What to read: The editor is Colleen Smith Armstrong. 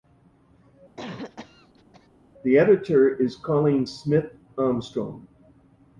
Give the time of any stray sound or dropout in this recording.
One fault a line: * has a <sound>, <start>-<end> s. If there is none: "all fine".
* has a cough, 1.0-2.1 s